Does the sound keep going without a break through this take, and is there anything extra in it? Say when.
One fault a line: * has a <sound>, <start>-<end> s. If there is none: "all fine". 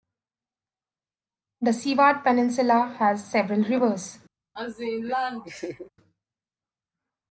* has a laugh, 4.6-5.9 s